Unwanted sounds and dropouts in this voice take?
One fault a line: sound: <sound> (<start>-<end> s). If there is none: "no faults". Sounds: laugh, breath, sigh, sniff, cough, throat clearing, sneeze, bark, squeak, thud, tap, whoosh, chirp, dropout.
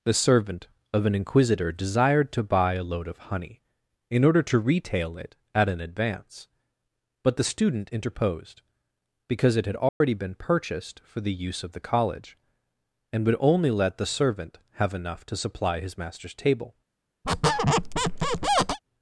sound: dropout (9.9-10.0 s)
sound: squeak (17.2-18.8 s)